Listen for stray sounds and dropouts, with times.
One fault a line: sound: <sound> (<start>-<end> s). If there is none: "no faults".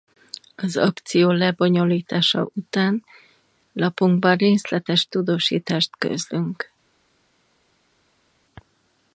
no faults